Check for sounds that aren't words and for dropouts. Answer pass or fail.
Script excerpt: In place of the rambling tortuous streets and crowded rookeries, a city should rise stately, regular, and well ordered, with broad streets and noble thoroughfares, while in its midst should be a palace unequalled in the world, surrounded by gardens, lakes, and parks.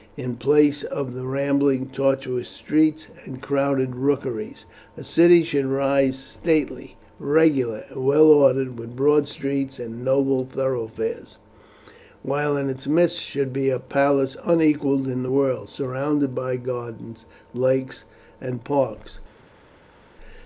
pass